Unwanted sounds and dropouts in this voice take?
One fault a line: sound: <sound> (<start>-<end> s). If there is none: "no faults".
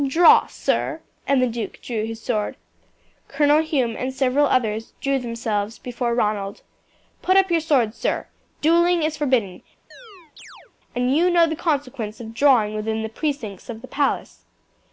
sound: chirp (9.9-10.7 s)